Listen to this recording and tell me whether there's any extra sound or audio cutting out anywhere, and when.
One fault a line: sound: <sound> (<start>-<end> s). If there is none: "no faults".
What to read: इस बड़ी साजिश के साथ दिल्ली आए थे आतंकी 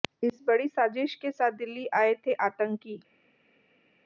no faults